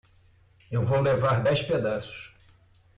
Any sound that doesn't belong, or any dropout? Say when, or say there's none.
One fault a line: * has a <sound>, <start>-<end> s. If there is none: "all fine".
all fine